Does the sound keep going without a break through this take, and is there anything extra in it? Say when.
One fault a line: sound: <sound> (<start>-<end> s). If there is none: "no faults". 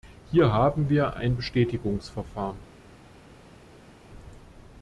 no faults